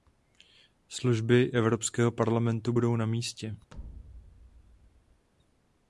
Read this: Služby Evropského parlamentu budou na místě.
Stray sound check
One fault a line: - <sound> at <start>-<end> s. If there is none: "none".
- thud at 3.7-5.3 s